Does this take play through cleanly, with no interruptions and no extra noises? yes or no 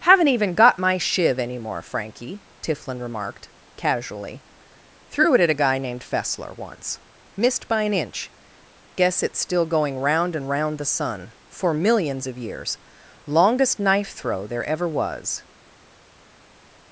yes